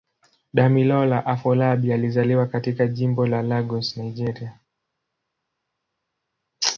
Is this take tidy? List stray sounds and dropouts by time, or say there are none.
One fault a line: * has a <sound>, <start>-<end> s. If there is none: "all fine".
all fine